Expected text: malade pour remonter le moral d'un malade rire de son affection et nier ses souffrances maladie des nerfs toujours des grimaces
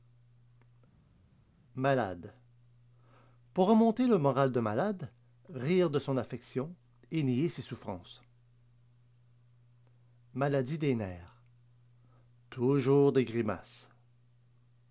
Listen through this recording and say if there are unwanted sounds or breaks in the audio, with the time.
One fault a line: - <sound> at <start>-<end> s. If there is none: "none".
none